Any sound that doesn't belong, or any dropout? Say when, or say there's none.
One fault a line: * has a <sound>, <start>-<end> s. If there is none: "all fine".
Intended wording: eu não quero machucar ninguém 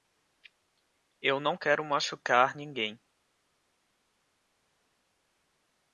all fine